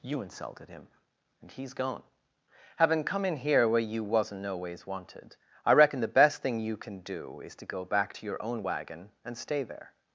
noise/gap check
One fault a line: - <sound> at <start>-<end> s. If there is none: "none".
none